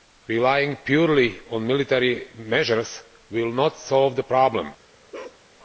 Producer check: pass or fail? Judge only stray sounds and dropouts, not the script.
fail